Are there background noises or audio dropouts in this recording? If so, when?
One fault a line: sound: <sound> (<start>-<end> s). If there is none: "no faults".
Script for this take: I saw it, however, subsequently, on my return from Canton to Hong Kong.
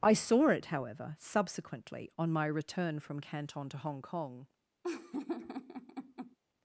sound: laugh (4.8-6.4 s)